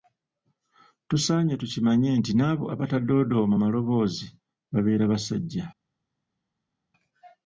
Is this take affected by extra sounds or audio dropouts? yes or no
no